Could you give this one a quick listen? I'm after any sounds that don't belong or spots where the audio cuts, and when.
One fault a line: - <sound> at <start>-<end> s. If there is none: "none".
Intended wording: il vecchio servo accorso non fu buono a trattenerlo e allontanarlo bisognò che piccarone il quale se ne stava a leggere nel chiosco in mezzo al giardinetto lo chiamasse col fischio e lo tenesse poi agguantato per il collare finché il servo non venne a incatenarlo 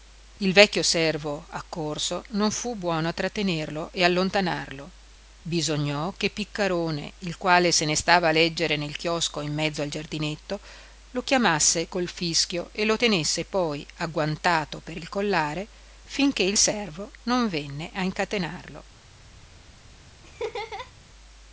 - laugh at 20.2-20.9 s